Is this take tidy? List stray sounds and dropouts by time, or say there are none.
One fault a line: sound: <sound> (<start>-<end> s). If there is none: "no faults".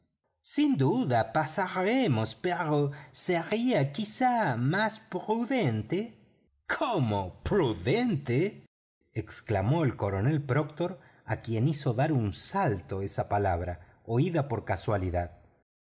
no faults